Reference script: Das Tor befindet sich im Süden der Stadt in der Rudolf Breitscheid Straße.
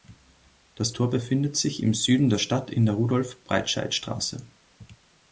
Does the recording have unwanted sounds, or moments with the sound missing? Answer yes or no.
no